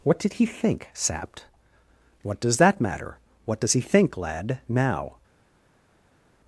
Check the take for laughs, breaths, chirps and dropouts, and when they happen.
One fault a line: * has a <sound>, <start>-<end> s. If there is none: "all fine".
all fine